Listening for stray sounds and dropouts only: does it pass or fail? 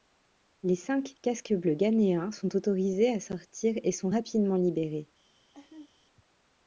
fail